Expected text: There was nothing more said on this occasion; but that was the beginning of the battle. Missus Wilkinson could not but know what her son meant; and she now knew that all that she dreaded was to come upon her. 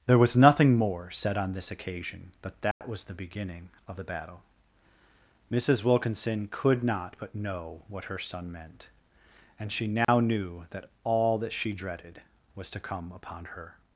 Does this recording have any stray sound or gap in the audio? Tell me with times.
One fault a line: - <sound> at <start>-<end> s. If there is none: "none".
- dropout at 2.7-2.8 s
- dropout at 10.0-10.1 s